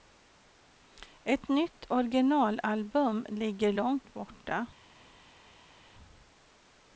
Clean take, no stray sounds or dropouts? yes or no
yes